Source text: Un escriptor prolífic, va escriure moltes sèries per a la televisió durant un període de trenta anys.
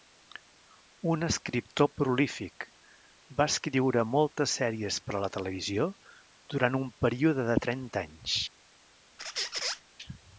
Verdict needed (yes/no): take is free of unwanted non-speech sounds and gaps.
no